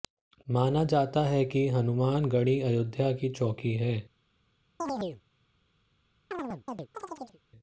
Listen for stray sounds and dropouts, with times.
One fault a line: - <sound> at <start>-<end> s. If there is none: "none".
- chirp at 4.8-5.2 s
- chirp at 6.3-7.4 s